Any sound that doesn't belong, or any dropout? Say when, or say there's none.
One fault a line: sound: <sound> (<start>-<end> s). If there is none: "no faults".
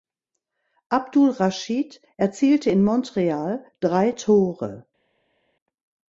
no faults